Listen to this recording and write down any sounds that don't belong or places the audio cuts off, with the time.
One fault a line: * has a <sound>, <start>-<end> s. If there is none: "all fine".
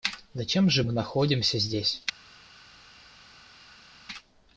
all fine